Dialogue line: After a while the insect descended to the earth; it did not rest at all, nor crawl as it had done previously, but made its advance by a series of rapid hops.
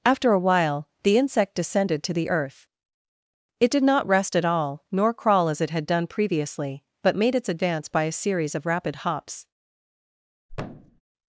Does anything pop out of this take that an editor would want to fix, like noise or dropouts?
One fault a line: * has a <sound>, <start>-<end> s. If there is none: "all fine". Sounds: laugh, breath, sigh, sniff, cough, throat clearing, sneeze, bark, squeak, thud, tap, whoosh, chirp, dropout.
* has a thud, 10.5-11.0 s